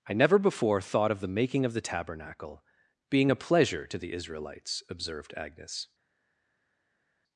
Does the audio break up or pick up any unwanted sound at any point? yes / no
no